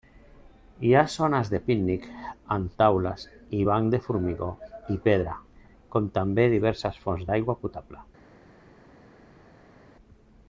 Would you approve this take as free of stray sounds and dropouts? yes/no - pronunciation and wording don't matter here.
yes